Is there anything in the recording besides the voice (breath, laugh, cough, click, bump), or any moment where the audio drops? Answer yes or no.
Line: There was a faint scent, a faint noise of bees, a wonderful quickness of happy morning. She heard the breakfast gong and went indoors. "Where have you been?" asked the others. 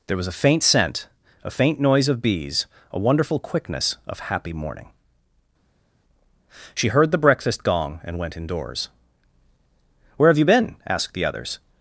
no